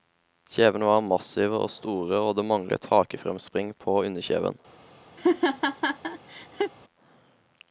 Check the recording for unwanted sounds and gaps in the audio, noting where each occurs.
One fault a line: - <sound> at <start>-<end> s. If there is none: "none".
- laugh at 5.2-6.7 s